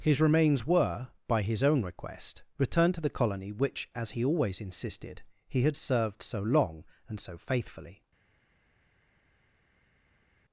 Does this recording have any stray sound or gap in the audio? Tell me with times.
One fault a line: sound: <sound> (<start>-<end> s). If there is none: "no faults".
no faults